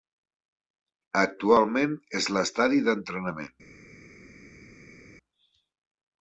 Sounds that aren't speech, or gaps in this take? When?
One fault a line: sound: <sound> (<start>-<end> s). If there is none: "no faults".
no faults